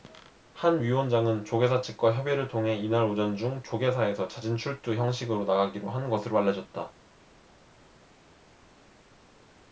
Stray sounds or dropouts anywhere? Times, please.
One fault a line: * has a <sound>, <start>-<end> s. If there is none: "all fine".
all fine